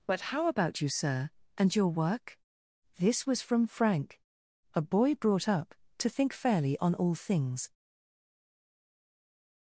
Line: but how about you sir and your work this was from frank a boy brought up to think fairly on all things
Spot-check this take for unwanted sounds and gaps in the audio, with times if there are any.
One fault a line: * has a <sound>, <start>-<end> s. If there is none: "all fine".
all fine